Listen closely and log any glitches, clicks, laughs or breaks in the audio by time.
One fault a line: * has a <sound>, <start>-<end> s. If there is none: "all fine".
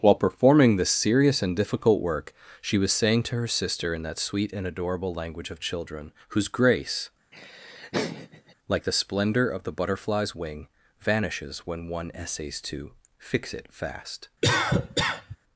* has a laugh, 7.3-8.5 s
* has a cough, 14.4-15.4 s